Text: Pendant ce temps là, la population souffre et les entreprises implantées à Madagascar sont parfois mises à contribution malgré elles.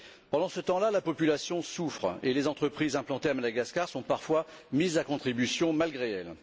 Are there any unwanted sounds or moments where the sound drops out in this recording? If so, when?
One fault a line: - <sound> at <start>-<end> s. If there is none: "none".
none